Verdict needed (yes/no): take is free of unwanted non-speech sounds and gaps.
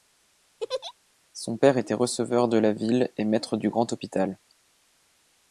no